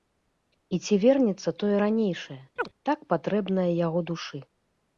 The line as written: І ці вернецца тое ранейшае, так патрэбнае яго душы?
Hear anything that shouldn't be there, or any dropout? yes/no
yes